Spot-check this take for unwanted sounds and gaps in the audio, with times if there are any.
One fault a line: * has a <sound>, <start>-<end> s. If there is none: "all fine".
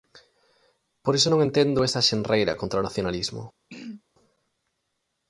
* has a throat clearing, 3.7-4.0 s